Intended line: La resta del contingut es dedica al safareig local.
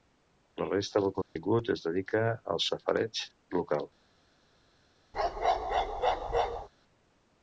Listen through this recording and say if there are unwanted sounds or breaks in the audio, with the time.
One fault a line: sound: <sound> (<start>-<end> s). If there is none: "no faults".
sound: dropout (1.2-1.4 s)
sound: bark (5.1-6.7 s)